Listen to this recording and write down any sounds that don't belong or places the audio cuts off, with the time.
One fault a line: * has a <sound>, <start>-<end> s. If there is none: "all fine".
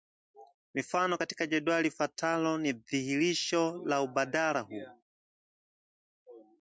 all fine